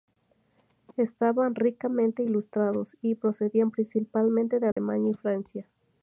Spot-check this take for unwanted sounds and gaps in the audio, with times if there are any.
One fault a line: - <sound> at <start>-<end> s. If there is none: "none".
- dropout at 4.7-4.8 s